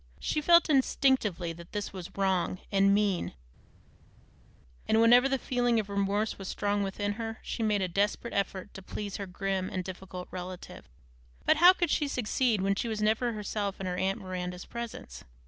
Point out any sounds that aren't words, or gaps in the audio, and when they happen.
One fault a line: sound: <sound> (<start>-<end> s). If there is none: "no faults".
no faults